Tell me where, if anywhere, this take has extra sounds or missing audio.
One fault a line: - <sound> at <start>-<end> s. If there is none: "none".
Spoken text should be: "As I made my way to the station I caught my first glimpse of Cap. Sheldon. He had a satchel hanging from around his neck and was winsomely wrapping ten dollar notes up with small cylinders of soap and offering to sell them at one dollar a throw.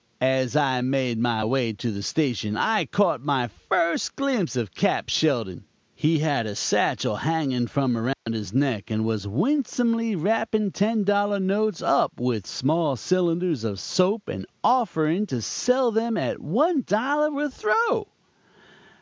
- dropout at 8.1-8.3 s